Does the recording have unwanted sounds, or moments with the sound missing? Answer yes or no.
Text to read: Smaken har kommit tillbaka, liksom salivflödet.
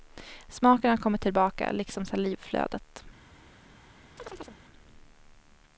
yes